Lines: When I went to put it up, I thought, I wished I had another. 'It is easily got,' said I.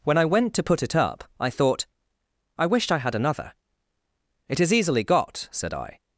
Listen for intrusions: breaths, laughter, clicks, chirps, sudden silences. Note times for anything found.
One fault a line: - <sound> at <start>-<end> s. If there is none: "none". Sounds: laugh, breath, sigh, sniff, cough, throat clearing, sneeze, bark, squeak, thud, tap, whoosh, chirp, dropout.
none